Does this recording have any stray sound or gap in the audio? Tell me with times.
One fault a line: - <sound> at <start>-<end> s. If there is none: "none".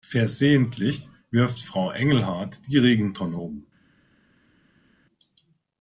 none